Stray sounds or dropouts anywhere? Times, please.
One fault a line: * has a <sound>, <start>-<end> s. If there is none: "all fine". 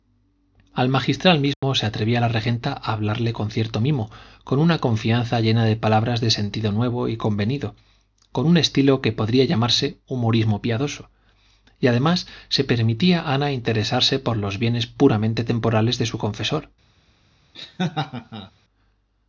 * has a dropout, 1.5-1.6 s
* has a laugh, 17.5-18.5 s